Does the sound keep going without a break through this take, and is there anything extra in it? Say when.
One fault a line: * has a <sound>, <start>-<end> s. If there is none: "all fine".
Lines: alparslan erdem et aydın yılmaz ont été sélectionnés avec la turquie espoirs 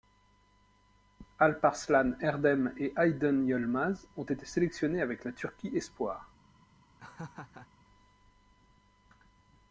* has a laugh, 7.0-7.7 s